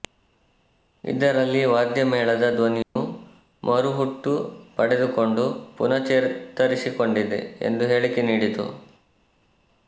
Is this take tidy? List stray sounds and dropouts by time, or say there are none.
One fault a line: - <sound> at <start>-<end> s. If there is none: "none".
- dropout at 2.8-3.0 s